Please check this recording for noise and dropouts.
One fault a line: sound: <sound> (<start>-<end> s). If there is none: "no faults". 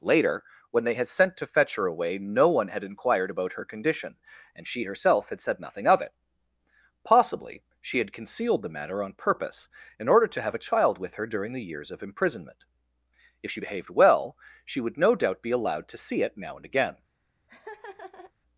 sound: laugh (17.5-18.3 s)